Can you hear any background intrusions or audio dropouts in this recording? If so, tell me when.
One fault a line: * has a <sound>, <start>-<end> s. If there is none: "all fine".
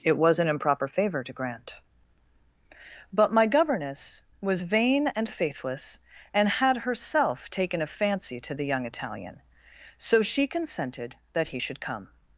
all fine